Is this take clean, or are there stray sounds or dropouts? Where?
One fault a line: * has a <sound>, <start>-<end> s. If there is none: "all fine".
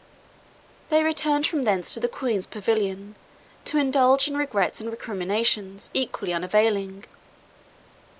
all fine